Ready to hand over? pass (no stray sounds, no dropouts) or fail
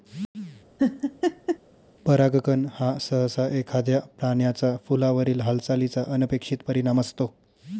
fail